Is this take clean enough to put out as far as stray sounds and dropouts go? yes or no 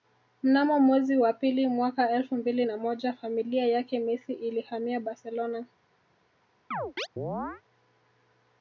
no